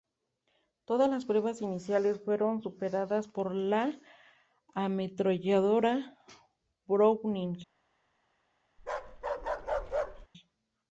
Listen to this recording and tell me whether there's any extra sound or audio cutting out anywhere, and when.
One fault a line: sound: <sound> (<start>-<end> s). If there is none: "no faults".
sound: bark (8.8-10.3 s)